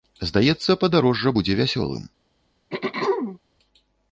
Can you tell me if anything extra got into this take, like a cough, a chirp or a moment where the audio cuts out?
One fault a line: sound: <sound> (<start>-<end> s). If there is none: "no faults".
sound: throat clearing (2.7-3.4 s)